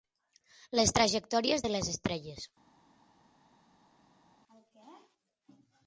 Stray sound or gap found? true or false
false